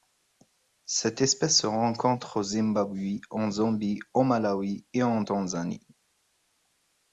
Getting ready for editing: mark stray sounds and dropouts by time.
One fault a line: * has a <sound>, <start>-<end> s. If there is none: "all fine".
all fine